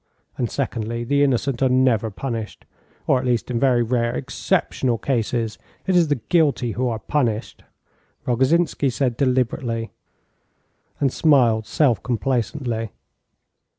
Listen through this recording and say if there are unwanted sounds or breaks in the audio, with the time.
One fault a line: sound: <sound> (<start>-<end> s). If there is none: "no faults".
no faults